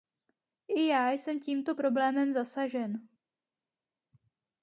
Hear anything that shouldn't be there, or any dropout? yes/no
no